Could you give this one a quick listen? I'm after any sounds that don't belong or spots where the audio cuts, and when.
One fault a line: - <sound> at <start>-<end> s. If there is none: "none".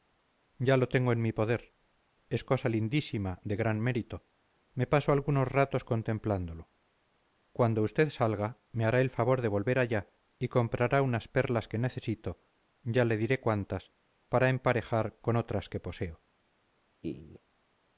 - laugh at 17.0-17.4 s